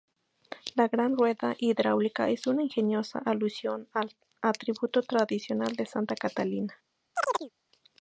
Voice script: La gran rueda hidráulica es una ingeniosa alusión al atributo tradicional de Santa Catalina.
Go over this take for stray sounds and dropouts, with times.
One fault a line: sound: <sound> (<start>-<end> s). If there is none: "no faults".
sound: chirp (7.2-7.5 s)